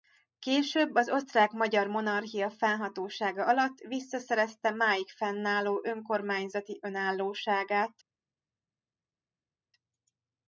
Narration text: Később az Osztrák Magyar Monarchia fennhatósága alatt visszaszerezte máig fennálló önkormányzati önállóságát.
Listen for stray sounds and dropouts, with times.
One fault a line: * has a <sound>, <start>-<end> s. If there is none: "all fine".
all fine